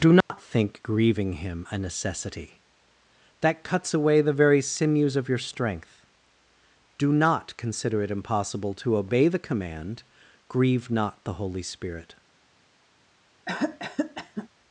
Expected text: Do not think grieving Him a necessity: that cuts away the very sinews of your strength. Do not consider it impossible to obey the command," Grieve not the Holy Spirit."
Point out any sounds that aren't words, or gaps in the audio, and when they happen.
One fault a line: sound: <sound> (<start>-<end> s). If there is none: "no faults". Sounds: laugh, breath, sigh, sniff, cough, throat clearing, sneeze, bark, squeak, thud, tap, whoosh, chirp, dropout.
sound: dropout (0.2-0.3 s)
sound: cough (13.5-14.5 s)